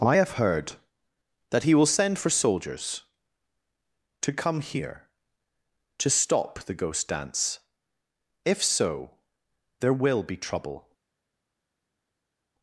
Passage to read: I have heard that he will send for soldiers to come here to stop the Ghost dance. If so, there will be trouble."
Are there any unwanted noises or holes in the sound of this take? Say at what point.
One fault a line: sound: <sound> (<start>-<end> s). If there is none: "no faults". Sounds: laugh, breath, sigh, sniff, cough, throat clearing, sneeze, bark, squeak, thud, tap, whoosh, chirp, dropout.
no faults